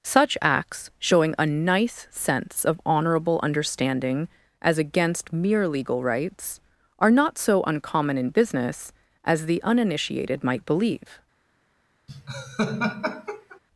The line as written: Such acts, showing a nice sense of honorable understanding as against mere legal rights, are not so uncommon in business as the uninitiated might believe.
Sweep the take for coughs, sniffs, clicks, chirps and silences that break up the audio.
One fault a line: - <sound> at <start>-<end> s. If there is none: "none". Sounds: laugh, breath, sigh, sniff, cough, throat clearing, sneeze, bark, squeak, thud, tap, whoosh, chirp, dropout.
- laugh at 12.1-13.6 s